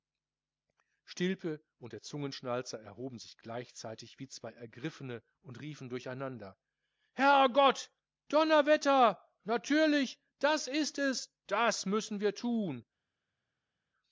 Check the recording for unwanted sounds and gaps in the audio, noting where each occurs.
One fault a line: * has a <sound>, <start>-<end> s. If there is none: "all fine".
all fine